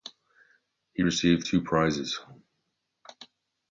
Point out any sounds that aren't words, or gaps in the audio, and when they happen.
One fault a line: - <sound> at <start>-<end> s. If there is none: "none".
none